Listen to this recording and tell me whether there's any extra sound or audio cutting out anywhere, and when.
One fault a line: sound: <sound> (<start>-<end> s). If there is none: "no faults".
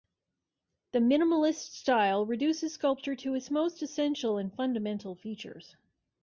no faults